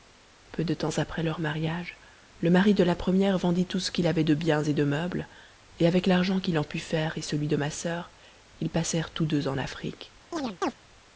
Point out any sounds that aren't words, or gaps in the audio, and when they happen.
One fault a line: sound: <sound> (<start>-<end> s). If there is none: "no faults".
sound: chirp (10.3-10.7 s)